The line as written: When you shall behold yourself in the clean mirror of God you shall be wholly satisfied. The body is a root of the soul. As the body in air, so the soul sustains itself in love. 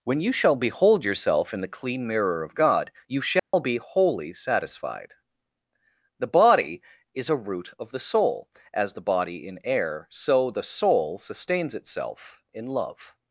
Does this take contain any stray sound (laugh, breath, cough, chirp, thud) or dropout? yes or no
yes